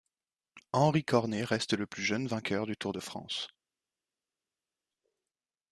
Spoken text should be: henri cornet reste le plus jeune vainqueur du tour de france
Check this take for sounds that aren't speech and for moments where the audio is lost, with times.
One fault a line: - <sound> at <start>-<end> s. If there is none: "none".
none